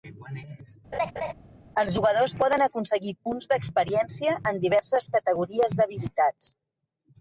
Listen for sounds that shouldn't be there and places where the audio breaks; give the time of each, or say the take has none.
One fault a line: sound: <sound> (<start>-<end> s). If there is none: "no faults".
sound: laugh (0.9-1.3 s)